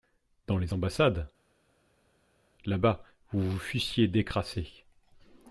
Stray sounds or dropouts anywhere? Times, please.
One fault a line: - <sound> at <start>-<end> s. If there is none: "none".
none